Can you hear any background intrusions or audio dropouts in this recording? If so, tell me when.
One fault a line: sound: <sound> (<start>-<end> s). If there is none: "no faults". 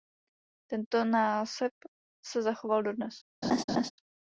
sound: laugh (3.4-3.9 s)